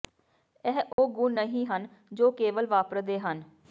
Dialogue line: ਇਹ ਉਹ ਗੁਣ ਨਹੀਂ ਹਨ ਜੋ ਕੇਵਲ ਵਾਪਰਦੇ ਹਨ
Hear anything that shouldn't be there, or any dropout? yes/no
yes